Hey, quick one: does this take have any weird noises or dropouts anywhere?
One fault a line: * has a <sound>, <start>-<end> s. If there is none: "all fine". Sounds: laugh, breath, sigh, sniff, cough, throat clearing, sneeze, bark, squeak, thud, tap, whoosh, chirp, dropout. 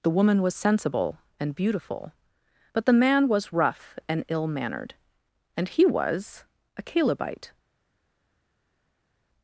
all fine